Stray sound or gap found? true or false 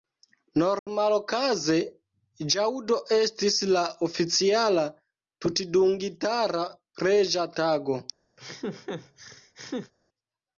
true